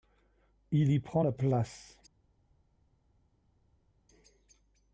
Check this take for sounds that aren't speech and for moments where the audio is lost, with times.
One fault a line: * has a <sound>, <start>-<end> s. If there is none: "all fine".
all fine